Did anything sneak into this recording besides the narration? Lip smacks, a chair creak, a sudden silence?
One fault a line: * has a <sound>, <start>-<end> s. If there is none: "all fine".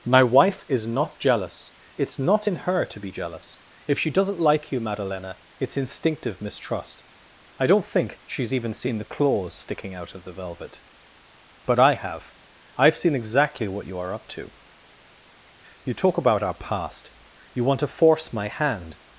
all fine